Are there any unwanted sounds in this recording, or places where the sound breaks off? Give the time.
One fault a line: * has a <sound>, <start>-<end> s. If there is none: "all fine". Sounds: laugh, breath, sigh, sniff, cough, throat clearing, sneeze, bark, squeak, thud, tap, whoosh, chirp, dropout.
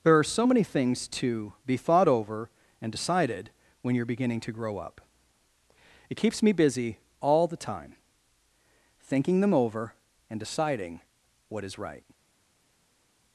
all fine